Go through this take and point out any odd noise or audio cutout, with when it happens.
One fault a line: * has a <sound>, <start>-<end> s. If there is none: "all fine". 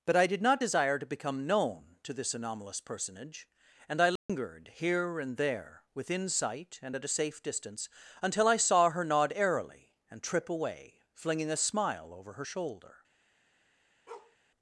* has a dropout, 4.2-4.3 s
* has a bark, 14.1-14.4 s